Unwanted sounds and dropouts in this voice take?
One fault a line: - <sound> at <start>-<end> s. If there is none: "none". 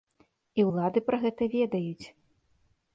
none